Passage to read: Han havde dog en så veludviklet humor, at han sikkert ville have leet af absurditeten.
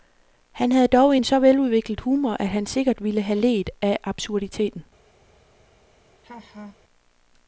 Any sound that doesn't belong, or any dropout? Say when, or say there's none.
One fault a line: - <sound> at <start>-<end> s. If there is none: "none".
- laugh at 6.2-6.8 s